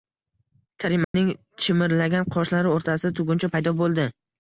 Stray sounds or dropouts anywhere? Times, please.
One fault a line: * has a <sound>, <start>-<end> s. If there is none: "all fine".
* has a dropout, 1.0-1.1 s